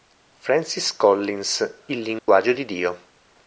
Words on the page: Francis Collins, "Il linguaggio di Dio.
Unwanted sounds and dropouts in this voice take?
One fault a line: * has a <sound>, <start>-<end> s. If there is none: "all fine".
* has a dropout, 2.2-2.3 s